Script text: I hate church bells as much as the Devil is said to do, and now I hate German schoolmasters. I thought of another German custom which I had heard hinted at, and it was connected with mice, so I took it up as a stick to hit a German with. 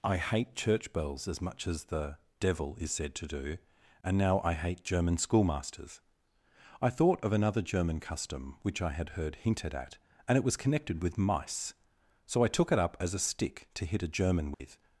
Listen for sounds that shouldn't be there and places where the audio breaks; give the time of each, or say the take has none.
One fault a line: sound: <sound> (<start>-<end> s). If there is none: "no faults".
sound: dropout (14.5-14.6 s)